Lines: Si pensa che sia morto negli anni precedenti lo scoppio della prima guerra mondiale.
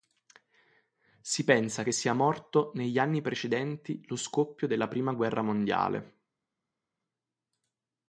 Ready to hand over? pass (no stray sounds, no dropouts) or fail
pass